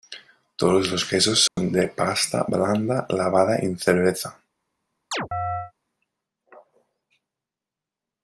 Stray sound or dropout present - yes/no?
yes